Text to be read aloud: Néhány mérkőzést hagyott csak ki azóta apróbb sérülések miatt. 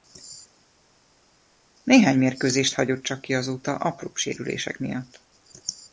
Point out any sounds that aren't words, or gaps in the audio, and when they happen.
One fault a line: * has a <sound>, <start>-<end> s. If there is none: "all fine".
all fine